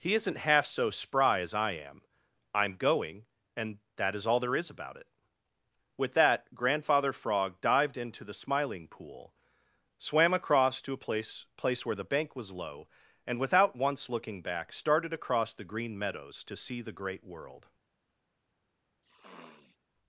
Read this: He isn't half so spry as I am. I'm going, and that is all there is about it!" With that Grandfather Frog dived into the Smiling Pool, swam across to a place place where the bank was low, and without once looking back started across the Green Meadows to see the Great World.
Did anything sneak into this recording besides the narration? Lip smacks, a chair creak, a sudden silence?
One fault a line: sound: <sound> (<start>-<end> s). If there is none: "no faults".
sound: sniff (19.0-19.8 s)